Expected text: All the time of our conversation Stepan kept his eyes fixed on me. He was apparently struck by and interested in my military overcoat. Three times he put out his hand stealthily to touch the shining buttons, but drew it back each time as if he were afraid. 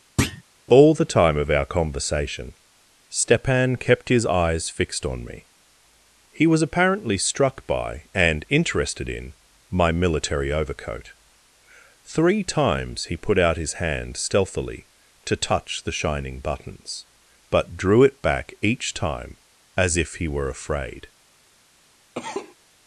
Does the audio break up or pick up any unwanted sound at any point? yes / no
yes